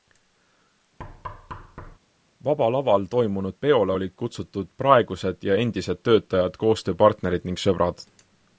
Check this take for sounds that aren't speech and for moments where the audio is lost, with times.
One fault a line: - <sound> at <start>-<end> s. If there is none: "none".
- thud at 1.0-2.0 s